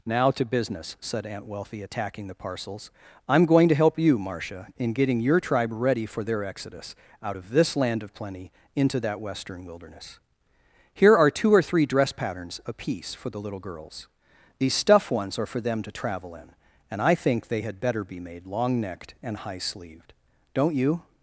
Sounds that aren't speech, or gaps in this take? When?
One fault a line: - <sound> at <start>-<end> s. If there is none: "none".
none